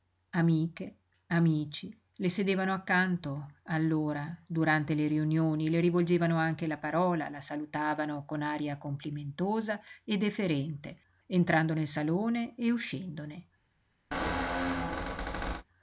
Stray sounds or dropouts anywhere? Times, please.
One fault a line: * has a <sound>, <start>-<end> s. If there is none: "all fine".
* has a squeak, 14.1-15.6 s